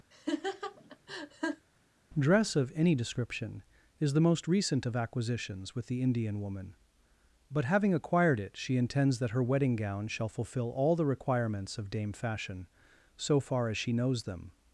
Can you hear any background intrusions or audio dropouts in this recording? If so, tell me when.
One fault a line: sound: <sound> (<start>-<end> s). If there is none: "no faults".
sound: laugh (0.1-1.7 s)